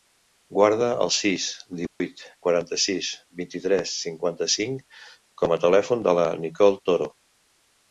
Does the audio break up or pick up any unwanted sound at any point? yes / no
yes